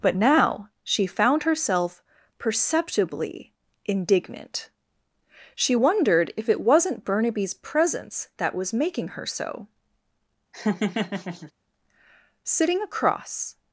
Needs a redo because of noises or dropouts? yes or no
yes